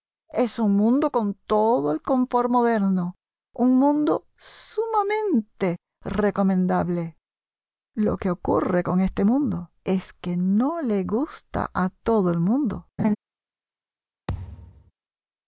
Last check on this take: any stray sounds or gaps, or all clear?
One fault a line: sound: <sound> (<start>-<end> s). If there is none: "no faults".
sound: laugh (13.0-13.2 s)
sound: thud (14.3-14.9 s)